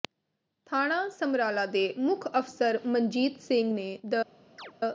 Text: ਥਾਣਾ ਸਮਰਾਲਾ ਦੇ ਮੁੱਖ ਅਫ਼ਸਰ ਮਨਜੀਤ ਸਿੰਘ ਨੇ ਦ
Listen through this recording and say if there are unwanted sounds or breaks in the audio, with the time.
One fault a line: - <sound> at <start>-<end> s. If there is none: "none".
- chirp at 4.6-4.7 s